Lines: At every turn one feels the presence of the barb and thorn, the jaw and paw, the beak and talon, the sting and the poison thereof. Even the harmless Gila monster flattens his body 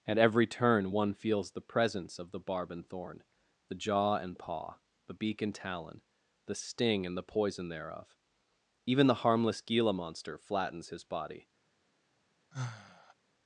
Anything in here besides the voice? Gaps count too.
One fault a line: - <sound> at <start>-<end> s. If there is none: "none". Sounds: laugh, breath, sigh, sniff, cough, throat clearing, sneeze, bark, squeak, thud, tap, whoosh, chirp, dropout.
- sigh at 12.5-13.1 s